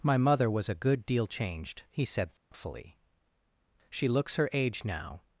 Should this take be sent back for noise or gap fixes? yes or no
yes